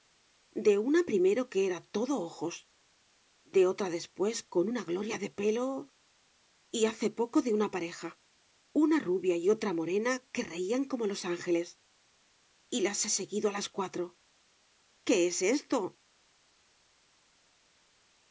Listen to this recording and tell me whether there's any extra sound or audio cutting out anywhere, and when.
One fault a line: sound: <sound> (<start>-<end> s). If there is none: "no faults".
no faults